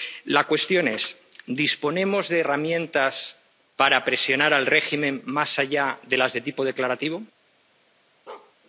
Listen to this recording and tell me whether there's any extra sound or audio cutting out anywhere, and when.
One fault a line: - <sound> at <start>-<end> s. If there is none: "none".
- bark at 8.3-8.6 s